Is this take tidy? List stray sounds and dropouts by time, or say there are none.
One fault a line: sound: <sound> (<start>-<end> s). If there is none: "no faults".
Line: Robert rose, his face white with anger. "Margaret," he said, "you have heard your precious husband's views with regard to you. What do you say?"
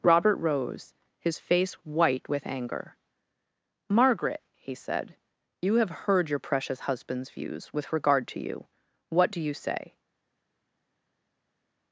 no faults